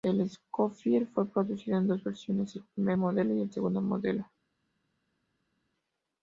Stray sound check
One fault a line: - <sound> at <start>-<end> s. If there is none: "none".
none